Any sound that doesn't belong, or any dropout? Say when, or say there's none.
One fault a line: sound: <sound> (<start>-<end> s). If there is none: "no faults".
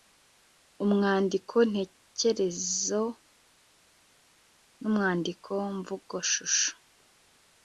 no faults